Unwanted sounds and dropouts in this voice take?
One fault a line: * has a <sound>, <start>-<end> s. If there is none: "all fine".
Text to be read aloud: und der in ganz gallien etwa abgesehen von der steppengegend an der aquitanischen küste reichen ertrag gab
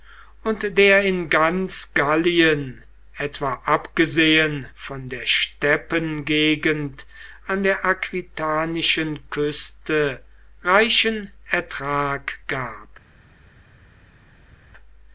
all fine